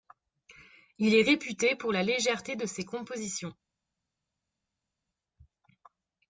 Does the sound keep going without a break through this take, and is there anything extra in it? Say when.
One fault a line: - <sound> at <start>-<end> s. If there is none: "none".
none